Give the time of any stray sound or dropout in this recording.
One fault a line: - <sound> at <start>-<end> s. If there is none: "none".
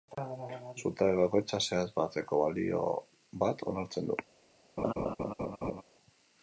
- laugh at 4.8-5.8 s